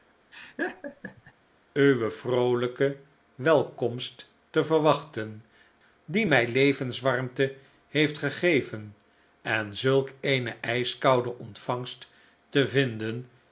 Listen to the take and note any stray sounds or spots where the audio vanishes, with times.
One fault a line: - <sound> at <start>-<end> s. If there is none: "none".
- laugh at 0.3-1.3 s